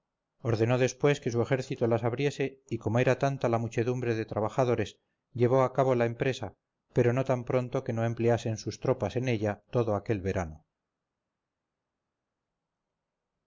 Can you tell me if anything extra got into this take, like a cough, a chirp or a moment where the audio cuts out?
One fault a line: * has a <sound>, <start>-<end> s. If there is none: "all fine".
all fine